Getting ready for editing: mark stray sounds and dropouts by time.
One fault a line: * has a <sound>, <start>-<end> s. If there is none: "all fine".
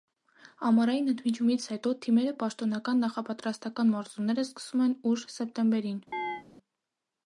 * has a chirp, 6.1-6.4 s